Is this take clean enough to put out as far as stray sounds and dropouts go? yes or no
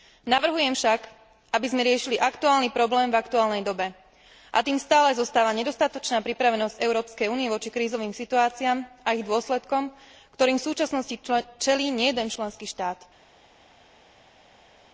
yes